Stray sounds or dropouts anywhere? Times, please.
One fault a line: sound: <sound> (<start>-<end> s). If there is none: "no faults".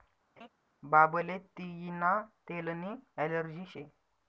sound: laugh (0.4-0.5 s)